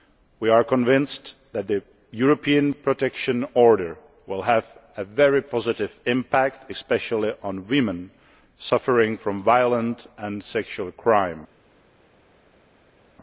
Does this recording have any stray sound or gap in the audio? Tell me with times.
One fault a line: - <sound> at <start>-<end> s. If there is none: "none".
none